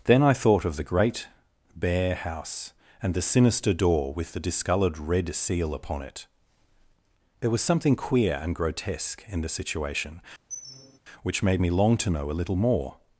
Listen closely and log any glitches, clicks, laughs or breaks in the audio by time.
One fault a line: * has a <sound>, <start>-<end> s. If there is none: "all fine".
* has a squeak, 10.5-11.0 s